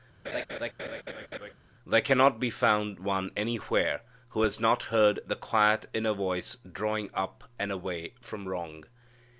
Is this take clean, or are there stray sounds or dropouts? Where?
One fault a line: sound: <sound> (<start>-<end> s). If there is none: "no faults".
sound: laugh (0.2-1.5 s)